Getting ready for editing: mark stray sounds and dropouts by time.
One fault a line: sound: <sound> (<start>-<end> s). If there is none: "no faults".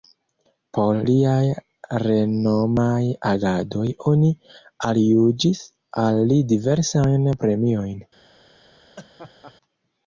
sound: laugh (9.0-9.5 s)